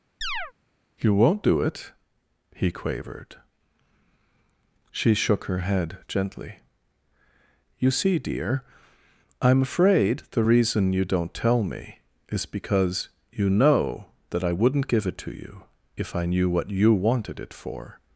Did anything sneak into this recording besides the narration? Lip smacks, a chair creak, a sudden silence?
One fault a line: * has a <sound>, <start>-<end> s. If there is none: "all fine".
* has a chirp, 0.2-0.5 s